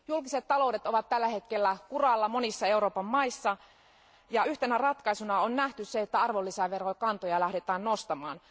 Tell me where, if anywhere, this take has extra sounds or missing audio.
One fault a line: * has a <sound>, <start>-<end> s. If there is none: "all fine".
all fine